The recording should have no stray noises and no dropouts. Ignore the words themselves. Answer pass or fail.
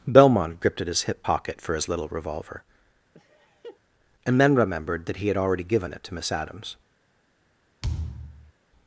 fail